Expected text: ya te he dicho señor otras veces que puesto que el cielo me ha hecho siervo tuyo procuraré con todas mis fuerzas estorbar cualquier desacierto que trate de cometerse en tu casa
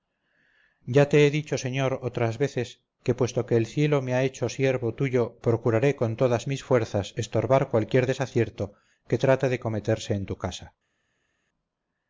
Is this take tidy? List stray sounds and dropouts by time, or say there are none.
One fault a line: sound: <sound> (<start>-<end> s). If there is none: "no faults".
no faults